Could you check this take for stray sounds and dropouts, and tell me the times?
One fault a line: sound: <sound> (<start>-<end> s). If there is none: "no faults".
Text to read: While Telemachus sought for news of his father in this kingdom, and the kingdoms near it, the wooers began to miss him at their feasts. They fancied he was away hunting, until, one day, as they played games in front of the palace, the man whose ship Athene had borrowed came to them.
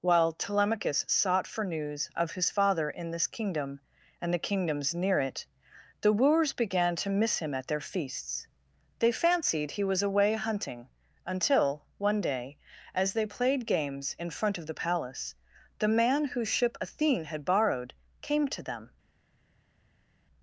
no faults